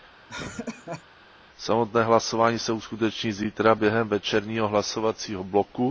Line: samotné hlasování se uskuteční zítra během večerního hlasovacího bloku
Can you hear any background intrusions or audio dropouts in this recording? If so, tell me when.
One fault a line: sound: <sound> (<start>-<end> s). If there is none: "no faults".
sound: laugh (0.3-1.0 s)